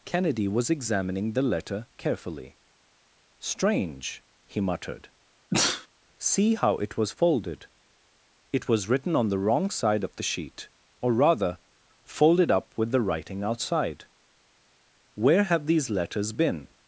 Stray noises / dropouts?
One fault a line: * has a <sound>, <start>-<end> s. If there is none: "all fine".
* has a sneeze, 5.5-5.9 s